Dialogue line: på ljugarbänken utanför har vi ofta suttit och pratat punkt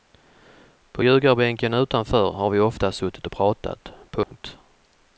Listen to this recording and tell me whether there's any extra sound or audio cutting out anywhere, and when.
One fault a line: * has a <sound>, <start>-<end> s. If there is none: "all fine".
* has a dropout, 4.2-4.3 s